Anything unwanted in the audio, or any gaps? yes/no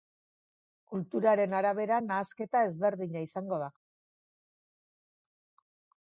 no